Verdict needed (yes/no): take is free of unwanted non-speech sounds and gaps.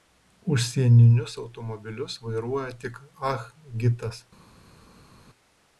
yes